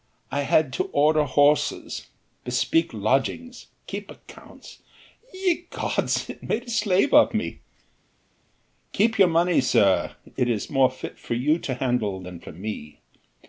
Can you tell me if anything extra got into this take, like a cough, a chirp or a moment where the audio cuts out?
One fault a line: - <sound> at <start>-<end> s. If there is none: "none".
none